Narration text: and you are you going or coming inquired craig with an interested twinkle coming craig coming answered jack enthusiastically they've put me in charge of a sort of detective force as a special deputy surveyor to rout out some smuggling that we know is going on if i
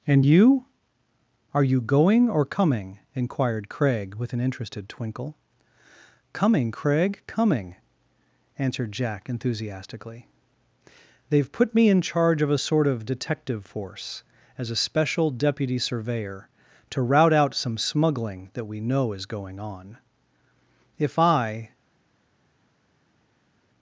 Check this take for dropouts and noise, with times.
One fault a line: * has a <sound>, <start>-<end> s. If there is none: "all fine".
all fine